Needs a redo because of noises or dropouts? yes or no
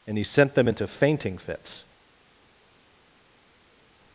no